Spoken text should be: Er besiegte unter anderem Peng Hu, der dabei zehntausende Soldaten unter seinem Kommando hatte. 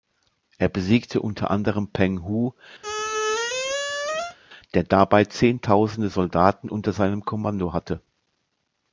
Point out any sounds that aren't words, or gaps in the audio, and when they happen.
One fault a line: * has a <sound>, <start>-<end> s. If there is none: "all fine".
* has a squeak, 2.8-4.4 s